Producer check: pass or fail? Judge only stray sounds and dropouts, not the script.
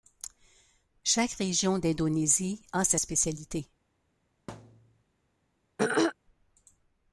fail